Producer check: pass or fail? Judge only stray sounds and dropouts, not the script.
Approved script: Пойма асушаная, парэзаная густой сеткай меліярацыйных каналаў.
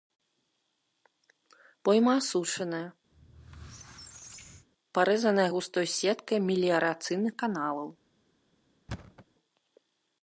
fail